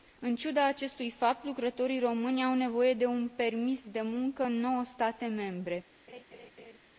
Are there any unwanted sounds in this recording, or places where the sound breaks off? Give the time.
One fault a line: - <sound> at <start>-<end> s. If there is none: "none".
- laugh at 6.1-6.8 s